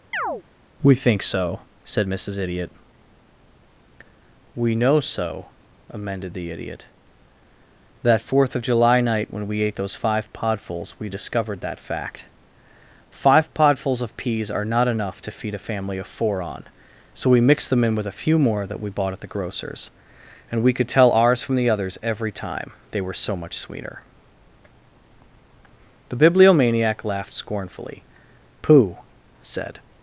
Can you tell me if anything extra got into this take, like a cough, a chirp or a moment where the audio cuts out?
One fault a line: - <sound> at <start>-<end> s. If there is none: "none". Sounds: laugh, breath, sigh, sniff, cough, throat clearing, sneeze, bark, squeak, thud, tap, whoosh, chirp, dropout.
- chirp at 0.1-0.4 s